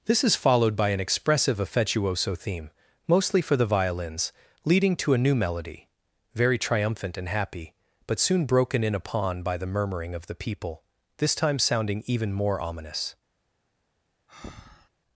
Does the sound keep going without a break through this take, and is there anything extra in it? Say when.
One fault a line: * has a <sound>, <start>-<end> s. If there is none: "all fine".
* has a breath, 14.3-14.9 s